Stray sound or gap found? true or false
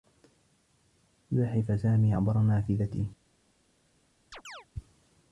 true